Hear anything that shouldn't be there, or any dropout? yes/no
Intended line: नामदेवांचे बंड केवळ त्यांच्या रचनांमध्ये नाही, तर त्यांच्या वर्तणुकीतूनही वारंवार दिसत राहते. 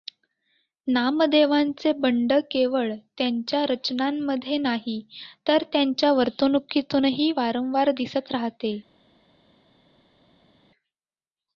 no